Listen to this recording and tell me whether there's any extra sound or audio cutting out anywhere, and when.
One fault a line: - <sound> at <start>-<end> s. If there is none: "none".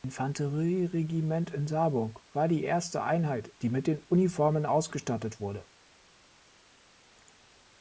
none